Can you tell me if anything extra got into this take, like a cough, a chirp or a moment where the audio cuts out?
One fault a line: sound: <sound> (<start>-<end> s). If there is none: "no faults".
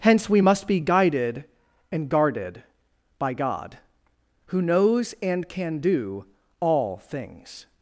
no faults